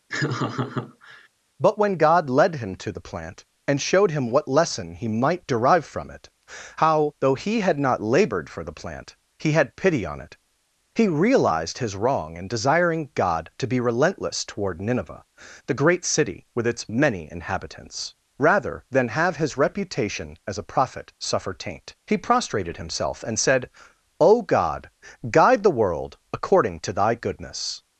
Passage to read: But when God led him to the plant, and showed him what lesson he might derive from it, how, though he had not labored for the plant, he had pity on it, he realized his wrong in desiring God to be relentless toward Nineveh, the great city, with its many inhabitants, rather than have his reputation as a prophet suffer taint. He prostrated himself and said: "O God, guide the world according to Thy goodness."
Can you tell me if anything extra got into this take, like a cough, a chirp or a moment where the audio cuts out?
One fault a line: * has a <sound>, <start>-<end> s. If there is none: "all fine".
* has a laugh, 0.1-1.3 s